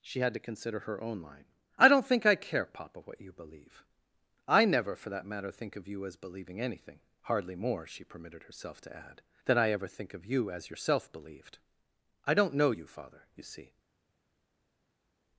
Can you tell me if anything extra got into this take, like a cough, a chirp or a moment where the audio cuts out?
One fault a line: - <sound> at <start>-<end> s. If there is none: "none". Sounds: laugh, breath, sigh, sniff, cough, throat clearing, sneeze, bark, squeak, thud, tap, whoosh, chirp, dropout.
none